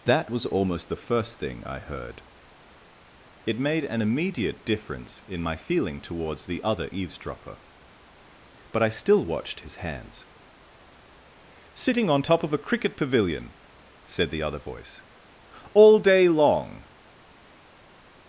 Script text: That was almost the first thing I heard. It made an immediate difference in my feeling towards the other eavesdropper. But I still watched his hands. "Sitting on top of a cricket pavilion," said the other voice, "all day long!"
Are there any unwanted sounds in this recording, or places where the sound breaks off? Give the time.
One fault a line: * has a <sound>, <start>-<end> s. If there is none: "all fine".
all fine